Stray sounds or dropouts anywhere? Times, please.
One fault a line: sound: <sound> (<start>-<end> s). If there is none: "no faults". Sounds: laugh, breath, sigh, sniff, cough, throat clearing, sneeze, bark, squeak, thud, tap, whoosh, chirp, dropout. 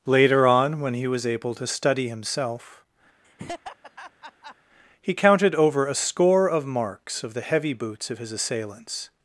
sound: laugh (3.2-4.6 s)